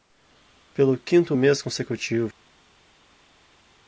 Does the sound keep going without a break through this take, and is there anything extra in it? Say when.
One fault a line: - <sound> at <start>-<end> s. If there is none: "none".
none